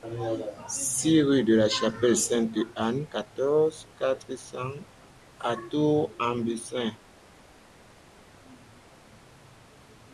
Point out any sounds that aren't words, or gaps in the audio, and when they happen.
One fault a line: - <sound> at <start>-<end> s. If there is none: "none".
none